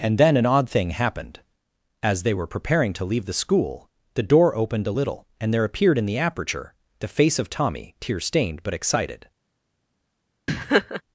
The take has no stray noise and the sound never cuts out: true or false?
false